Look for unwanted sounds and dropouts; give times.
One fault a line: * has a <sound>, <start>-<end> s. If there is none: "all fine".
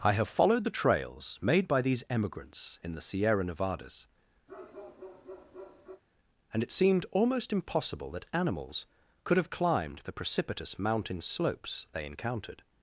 * has a bark, 4.5-6.0 s